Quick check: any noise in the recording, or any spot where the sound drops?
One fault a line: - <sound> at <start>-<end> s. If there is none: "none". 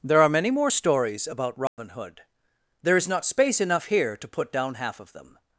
- dropout at 1.7-1.8 s